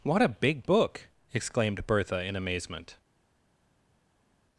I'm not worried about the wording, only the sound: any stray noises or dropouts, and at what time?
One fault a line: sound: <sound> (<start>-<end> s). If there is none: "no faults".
no faults